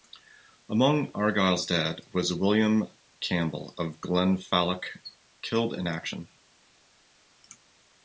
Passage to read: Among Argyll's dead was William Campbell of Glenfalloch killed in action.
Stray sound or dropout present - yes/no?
no